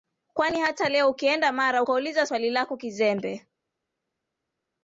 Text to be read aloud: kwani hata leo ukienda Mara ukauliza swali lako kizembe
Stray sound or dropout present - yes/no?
no